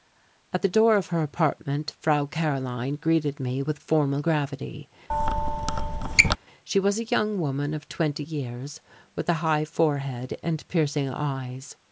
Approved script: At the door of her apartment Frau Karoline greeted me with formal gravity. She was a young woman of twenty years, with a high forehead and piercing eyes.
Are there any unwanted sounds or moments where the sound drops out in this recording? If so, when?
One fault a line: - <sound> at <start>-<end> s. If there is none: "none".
- squeak at 5.1-6.4 s